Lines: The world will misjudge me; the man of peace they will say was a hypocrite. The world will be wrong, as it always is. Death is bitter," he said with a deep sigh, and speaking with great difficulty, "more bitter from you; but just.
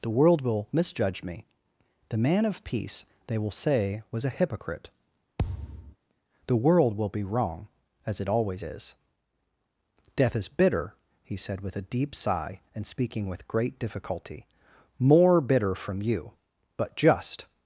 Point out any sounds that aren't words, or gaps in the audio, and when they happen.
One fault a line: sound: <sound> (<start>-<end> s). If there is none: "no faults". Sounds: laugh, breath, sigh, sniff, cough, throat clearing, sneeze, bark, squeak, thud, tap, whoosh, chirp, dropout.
sound: thud (5.4-6.0 s)